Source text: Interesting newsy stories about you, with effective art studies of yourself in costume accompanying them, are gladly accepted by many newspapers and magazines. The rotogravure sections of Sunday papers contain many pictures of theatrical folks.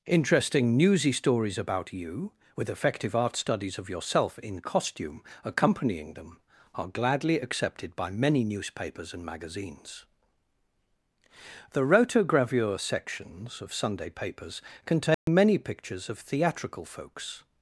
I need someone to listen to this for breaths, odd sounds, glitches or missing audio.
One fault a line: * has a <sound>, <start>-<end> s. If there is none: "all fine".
* has a dropout, 15.1-15.3 s